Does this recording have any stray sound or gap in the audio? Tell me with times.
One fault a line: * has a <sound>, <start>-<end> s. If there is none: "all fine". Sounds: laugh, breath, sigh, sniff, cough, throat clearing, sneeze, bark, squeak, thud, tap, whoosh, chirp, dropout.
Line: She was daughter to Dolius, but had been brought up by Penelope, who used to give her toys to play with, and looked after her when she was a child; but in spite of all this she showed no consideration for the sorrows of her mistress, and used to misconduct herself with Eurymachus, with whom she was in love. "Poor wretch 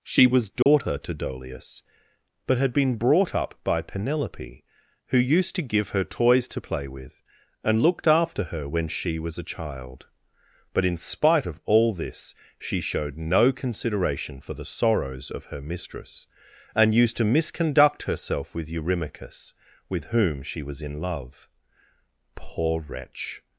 * has a dropout, 0.6-0.7 s